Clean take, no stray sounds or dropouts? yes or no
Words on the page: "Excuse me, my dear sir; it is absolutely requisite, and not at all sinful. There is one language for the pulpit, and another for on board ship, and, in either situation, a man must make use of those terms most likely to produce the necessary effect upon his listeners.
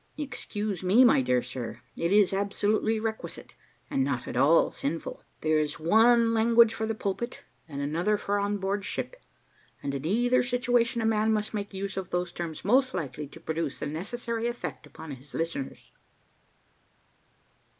yes